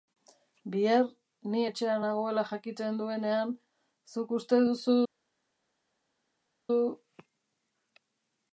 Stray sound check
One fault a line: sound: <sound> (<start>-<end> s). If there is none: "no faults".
no faults